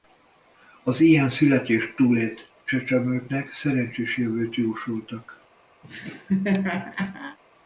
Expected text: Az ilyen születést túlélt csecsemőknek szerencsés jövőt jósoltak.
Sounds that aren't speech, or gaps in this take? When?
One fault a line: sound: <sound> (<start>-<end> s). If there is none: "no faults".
sound: laugh (5.8-7.4 s)